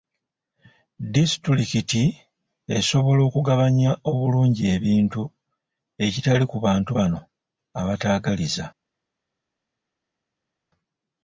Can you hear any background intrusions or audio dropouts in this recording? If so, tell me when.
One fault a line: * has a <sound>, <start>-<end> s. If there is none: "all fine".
all fine